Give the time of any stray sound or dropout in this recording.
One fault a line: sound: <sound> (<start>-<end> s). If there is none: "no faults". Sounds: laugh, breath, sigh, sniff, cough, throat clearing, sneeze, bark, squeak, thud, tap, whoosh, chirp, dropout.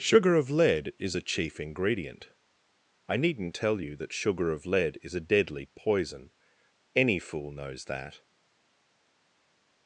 no faults